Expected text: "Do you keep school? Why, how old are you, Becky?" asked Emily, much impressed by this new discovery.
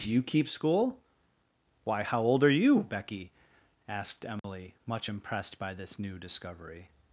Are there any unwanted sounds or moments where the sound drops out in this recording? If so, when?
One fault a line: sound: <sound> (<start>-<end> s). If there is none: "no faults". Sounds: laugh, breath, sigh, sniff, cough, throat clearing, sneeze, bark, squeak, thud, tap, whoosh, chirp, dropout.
sound: dropout (4.4-4.4 s)